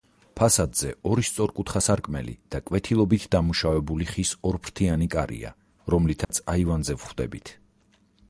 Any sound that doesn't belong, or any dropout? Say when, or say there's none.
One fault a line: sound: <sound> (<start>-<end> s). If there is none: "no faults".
sound: dropout (6.2-6.3 s)